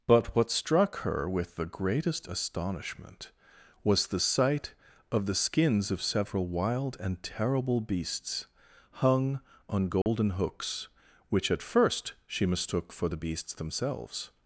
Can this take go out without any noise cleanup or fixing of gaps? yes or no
no